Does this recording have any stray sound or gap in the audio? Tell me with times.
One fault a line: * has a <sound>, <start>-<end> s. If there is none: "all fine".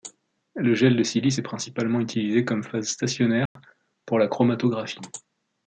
* has a dropout, 3.5-3.6 s